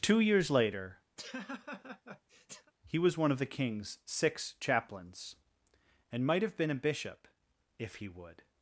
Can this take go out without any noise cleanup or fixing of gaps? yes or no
no